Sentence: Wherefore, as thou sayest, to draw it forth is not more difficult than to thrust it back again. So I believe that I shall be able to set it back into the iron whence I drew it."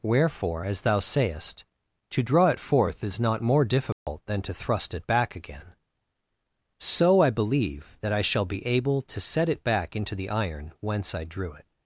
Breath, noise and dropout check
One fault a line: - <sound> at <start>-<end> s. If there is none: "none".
- dropout at 3.9-4.1 s